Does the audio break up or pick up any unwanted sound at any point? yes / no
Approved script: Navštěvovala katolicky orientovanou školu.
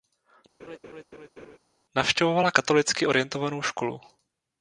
yes